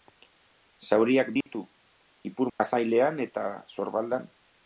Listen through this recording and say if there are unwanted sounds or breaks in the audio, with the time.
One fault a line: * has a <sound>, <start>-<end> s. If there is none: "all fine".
* has a dropout, 1.4-1.5 s
* has a dropout, 2.5-2.6 s